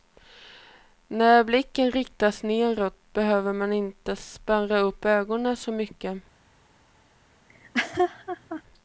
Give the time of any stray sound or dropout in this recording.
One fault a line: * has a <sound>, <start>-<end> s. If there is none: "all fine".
* has a laugh, 7.5-8.6 s